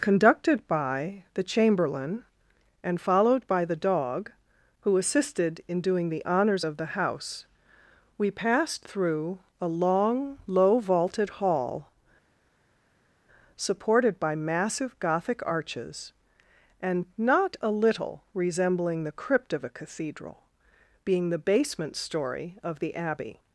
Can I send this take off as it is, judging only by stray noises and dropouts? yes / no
yes